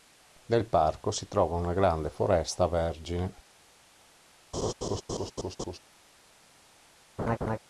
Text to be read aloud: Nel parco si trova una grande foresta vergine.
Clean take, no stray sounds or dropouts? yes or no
no